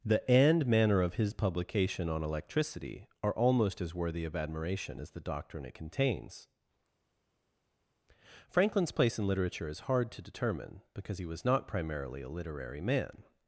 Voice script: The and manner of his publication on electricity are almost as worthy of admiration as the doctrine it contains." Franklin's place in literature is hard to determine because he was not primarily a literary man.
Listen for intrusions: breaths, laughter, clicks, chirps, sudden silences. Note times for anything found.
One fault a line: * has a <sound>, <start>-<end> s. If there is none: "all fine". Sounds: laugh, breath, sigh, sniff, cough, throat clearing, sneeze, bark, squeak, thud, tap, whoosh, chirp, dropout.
all fine